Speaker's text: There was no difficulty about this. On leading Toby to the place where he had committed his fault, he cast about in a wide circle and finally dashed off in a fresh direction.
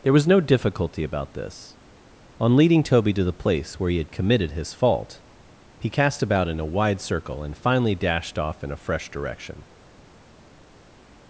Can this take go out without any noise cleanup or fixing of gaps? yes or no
yes